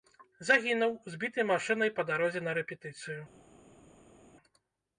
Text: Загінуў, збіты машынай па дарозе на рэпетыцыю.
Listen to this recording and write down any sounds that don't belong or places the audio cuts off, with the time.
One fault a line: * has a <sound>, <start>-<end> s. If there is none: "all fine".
all fine